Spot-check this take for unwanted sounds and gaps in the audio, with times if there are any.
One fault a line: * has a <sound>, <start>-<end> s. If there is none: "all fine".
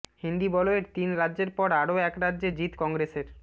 all fine